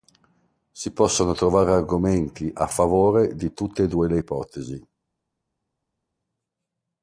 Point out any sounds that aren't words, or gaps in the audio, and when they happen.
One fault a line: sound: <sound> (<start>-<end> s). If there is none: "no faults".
no faults